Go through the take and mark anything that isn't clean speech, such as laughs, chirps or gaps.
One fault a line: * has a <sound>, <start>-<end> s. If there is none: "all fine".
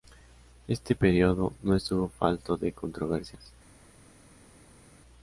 all fine